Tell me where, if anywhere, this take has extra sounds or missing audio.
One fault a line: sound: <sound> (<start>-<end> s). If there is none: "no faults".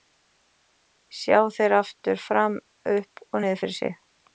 no faults